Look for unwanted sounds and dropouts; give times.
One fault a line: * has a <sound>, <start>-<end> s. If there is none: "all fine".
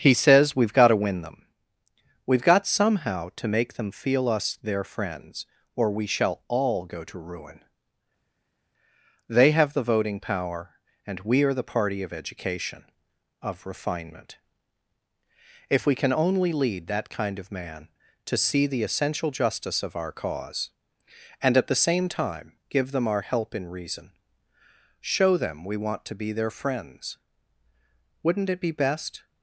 all fine